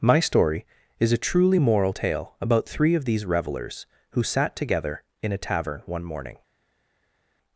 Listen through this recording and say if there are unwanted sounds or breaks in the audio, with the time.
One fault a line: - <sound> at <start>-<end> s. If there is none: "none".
none